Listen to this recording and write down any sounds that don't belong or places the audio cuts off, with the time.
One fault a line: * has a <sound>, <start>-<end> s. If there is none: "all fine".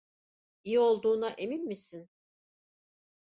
all fine